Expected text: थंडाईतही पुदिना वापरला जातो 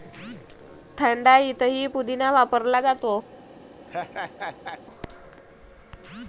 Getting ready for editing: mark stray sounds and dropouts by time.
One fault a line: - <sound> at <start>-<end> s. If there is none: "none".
- laugh at 3.9-4.8 s